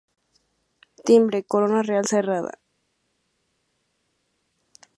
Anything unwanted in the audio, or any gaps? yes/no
no